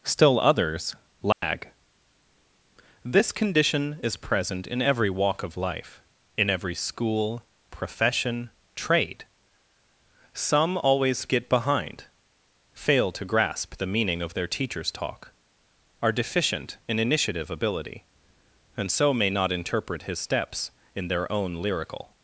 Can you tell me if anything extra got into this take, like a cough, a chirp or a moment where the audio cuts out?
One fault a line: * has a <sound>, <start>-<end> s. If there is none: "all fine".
* has a dropout, 1.3-1.4 s